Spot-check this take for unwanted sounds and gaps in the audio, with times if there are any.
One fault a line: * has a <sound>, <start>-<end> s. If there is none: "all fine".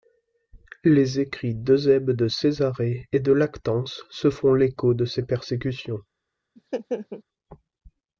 * has a laugh, 6.6-7.2 s